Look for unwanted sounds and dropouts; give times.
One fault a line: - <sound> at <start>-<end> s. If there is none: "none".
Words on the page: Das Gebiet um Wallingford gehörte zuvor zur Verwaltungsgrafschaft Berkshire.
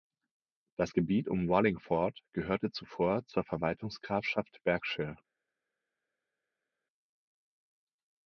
none